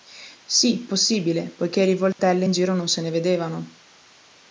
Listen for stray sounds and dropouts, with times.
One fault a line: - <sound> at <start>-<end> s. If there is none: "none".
- dropout at 2.1-2.2 s